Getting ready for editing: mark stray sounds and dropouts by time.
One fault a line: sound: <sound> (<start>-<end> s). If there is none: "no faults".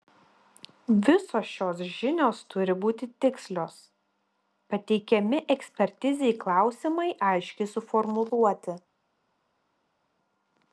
no faults